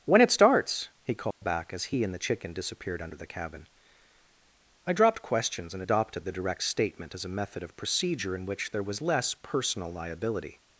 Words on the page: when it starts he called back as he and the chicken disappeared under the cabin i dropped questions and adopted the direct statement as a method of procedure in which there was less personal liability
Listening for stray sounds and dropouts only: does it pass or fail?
fail